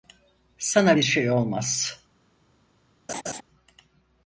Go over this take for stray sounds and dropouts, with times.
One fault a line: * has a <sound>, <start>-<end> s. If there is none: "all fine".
* has a laugh, 3.1-3.4 s